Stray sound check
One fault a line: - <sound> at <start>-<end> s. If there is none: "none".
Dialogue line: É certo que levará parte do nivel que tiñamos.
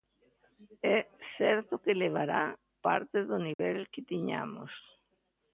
- dropout at 3.5-3.6 s